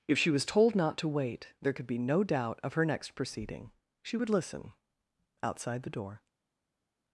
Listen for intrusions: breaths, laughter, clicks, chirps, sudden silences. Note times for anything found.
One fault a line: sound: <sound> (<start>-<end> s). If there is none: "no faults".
no faults